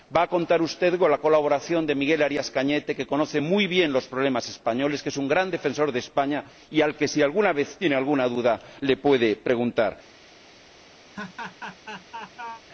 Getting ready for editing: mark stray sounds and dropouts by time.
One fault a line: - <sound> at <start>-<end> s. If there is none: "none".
- laugh at 11.1-12.6 s